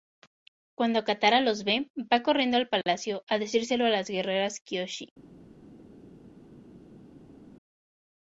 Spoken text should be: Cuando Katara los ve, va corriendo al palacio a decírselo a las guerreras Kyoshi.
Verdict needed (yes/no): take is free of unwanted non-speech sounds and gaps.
yes